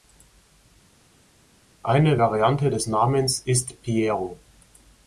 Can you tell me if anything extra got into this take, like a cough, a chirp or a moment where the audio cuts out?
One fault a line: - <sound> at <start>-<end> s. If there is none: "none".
none